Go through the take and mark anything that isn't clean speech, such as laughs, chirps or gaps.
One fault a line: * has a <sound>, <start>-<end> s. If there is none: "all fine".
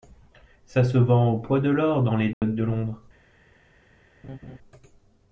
* has a dropout, 2.3-2.4 s
* has a laugh, 4.2-4.6 s